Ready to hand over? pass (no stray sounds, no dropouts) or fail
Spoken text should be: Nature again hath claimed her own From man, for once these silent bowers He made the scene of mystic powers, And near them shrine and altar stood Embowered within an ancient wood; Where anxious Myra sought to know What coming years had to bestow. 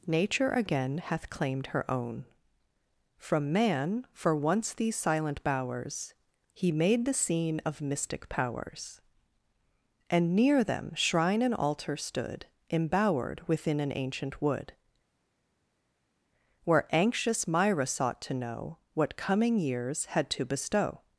pass